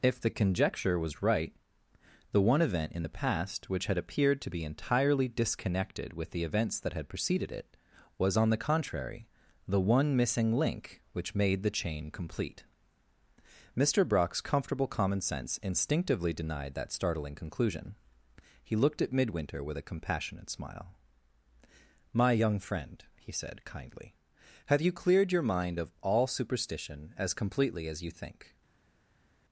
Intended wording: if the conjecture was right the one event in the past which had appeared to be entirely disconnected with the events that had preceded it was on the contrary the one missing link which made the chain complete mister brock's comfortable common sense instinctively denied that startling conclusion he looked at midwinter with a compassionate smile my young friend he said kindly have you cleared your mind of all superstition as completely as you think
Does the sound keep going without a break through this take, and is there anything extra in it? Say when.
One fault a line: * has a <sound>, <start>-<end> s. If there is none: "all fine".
all fine